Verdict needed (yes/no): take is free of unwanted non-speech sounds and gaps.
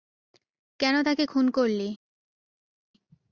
yes